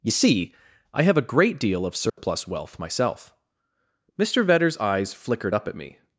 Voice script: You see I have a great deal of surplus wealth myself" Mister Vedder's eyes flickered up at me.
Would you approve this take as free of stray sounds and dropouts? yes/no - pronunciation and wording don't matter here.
no